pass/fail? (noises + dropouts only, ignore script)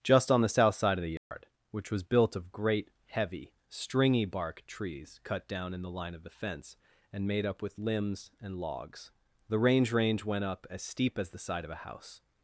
fail